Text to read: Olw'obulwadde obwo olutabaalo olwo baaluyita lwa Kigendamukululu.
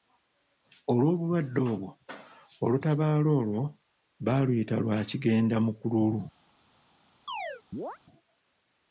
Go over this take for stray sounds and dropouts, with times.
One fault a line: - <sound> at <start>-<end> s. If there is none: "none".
- chirp at 7.3-8.0 s